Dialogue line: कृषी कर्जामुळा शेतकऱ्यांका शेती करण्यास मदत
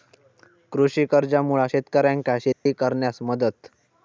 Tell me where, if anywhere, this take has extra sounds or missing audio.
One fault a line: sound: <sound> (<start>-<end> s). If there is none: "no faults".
sound: dropout (2.5-2.7 s)